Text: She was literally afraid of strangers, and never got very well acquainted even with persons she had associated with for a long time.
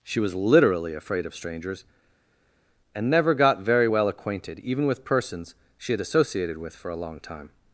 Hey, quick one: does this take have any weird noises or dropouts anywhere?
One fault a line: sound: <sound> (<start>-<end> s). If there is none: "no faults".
no faults